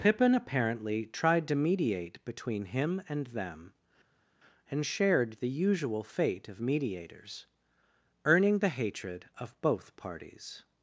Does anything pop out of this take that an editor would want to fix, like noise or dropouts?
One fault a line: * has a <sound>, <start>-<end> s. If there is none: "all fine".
all fine